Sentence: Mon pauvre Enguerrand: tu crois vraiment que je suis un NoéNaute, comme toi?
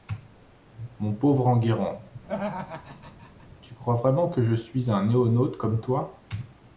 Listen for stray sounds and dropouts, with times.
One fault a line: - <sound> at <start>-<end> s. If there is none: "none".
- laugh at 2.2-3.5 s